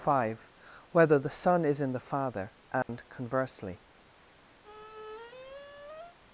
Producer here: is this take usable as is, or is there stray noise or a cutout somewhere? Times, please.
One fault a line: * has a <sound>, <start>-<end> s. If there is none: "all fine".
* has a dropout, 2.8-2.9 s
* has a squeak, 4.6-6.2 s